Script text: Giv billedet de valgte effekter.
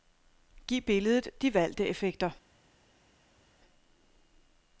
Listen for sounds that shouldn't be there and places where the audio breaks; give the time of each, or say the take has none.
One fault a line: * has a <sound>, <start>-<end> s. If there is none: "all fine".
all fine